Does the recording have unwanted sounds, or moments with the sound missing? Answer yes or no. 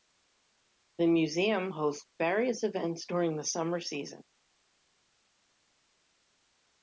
no